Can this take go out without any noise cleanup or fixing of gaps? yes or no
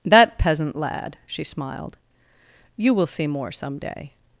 yes